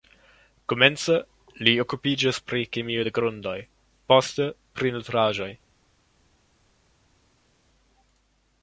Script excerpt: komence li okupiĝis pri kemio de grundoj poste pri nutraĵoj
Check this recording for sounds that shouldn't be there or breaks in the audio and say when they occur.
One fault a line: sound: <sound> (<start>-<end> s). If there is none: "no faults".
no faults